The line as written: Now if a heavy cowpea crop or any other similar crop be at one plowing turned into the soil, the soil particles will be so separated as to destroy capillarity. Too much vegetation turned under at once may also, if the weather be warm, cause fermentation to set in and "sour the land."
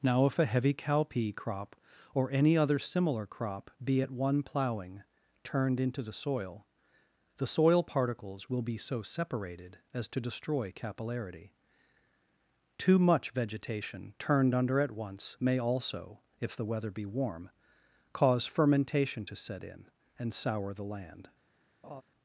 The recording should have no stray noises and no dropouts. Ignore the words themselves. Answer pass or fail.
fail